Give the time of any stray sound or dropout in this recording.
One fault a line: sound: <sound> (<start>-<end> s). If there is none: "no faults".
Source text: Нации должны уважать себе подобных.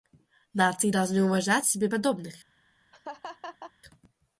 sound: laugh (2.9-3.7 s)